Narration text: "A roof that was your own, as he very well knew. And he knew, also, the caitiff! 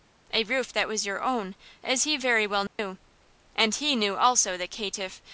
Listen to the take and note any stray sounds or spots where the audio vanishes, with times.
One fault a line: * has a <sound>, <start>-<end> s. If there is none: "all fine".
* has a dropout, 2.7-2.8 s